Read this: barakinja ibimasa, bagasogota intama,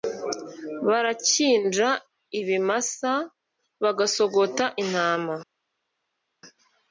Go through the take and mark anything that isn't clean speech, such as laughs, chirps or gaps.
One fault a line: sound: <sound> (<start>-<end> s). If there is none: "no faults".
no faults